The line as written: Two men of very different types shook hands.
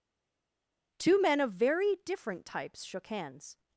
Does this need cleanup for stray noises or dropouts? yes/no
no